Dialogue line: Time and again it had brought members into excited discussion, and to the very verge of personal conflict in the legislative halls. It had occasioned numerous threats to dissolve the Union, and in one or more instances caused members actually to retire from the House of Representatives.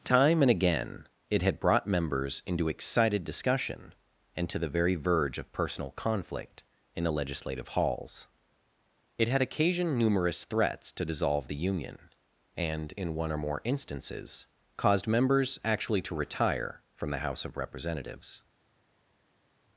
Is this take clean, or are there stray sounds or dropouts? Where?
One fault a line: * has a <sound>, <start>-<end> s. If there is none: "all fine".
all fine